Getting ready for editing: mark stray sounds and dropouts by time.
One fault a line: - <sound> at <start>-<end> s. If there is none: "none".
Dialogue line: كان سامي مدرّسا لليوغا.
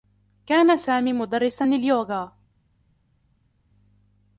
none